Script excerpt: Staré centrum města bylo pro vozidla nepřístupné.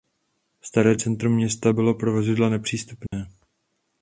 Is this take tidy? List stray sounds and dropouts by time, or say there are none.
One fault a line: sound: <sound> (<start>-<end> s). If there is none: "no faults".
sound: dropout (3.1-3.1 s)